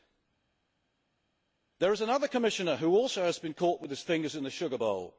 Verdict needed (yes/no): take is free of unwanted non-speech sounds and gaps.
yes